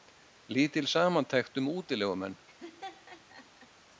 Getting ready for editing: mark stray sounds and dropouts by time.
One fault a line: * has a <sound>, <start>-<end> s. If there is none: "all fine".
* has a laugh, 2.5-3.7 s